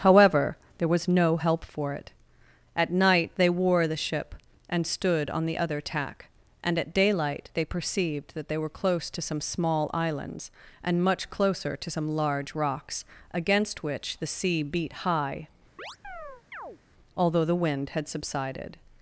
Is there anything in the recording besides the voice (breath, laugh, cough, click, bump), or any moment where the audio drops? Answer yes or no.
yes